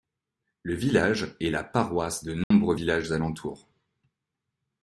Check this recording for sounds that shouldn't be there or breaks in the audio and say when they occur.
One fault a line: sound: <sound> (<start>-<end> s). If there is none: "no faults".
sound: dropout (2.4-2.5 s)